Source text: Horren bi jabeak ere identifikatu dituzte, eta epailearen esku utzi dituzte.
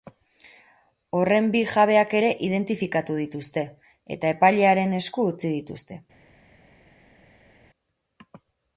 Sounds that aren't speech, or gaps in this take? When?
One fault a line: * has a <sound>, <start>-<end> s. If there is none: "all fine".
all fine